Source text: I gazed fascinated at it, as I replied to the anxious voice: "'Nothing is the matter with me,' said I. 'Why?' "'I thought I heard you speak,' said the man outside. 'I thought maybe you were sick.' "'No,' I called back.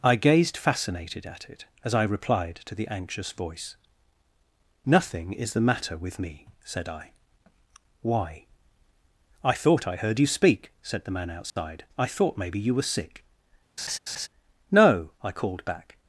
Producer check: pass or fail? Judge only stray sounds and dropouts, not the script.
fail